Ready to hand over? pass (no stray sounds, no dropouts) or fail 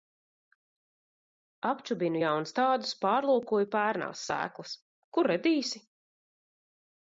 pass